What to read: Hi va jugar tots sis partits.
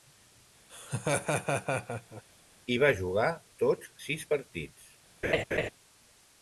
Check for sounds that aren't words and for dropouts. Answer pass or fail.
fail